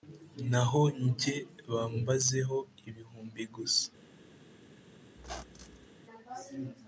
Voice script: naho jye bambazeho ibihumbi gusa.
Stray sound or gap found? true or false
true